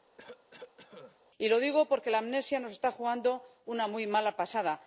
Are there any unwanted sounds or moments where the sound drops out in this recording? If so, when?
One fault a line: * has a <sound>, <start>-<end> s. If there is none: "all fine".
* has a cough, 0.2-1.2 s